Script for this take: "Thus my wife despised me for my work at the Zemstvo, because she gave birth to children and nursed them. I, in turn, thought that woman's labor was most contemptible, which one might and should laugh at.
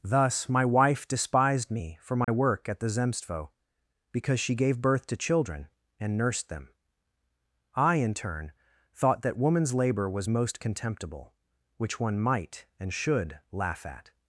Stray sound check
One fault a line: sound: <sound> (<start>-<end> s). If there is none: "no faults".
sound: dropout (2.2-2.3 s)